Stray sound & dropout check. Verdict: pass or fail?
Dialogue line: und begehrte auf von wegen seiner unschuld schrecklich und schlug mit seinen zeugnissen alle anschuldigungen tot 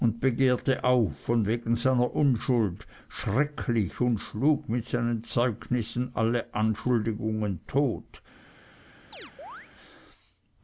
fail